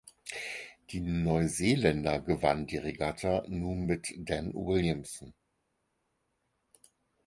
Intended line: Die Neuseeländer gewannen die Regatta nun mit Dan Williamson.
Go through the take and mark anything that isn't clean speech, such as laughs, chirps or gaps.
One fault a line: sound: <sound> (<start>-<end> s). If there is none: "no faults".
no faults